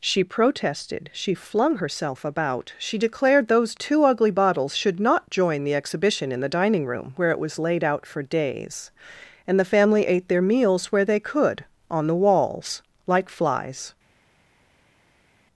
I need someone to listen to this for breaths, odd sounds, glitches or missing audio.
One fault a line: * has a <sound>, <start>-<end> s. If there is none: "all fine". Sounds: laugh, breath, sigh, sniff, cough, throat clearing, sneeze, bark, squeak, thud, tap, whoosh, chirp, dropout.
all fine